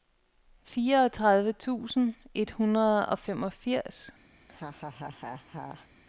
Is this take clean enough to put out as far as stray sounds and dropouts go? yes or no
no